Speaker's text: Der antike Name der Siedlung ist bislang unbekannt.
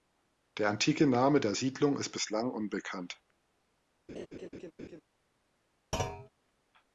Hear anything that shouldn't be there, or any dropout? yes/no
yes